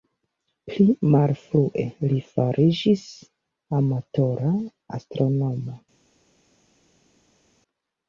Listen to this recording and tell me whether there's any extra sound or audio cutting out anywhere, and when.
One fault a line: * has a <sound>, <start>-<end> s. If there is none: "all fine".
all fine